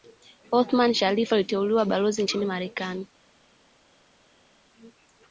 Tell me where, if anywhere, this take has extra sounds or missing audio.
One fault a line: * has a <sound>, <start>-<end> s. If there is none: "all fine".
all fine